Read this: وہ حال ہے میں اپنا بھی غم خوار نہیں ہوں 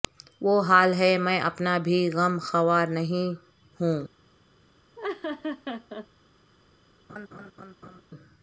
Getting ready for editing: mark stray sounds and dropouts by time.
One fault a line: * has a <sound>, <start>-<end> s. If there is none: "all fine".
* has a laugh, 5.0-6.1 s
* has a laugh, 7.1-8.0 s